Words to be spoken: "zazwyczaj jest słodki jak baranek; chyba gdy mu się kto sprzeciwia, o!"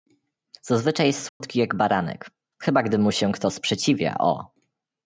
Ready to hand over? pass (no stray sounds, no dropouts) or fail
fail